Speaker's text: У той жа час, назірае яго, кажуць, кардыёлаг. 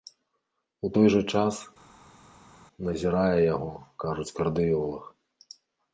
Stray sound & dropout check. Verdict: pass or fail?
pass